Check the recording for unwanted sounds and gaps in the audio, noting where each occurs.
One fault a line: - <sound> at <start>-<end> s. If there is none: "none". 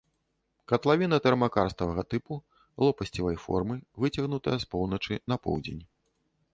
none